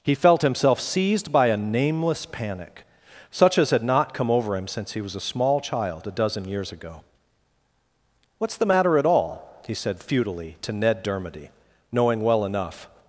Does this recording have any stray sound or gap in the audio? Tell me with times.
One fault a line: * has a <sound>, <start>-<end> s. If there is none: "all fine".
all fine